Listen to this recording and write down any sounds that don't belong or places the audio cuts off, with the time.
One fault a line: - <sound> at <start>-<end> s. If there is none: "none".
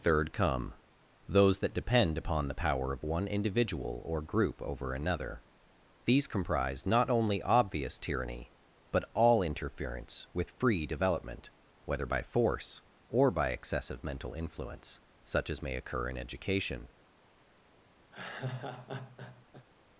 - laugh at 18.1-19.7 s